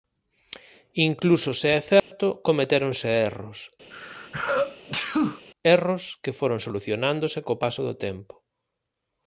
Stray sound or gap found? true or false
true